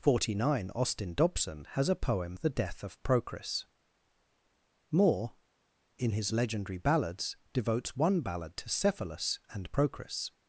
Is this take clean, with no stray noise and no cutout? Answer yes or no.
yes